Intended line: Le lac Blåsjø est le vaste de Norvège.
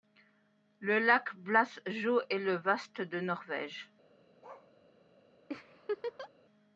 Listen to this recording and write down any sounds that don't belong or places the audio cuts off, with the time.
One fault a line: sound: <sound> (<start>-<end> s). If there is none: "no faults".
sound: bark (4.4-4.7 s)
sound: laugh (5.5-6.3 s)